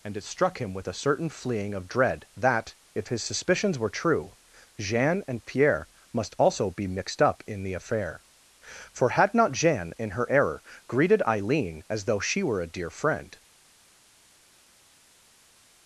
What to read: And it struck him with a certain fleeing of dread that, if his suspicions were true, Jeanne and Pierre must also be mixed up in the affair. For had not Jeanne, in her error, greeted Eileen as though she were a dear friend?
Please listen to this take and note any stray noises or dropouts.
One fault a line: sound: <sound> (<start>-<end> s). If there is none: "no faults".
no faults